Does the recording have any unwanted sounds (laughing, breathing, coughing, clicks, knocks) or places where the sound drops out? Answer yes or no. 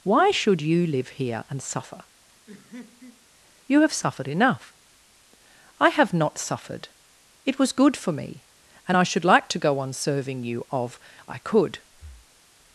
yes